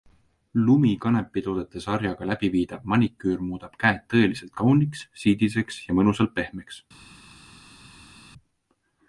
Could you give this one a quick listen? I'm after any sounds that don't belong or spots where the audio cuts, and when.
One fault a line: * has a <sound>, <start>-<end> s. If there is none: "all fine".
all fine